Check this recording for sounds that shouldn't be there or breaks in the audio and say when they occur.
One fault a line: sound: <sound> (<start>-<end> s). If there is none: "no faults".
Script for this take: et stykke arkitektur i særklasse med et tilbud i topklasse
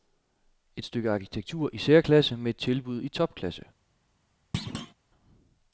sound: thud (4.5-4.9 s)